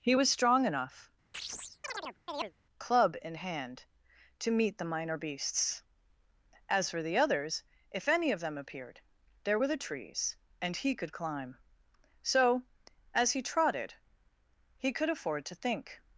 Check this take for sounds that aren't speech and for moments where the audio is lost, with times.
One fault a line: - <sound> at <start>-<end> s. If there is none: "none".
- chirp at 1.3-2.5 s